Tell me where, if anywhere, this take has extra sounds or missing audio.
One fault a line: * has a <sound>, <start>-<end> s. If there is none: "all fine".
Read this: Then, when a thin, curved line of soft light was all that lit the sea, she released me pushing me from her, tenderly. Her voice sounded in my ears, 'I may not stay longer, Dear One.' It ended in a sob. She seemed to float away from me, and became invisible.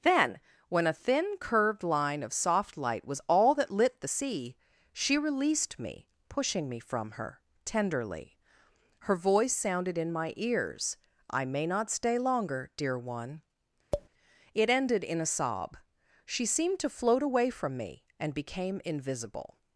* has a tap, 13.9-14.1 s